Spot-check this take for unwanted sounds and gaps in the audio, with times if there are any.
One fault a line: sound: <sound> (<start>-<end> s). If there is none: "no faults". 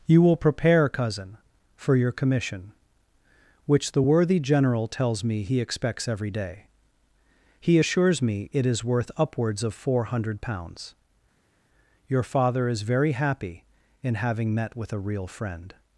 no faults